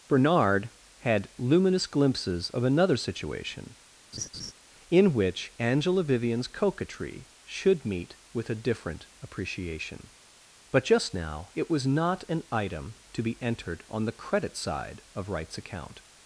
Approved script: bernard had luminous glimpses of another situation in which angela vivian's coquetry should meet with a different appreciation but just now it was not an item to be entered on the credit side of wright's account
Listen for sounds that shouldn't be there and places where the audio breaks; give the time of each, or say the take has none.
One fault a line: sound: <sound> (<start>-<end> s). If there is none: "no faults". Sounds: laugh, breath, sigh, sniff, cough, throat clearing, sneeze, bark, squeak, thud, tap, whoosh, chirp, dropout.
sound: laugh (4.1-4.5 s)